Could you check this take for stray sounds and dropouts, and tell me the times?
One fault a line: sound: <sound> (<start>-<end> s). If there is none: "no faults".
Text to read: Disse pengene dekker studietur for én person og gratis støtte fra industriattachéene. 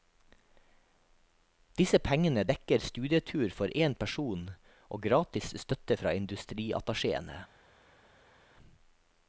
no faults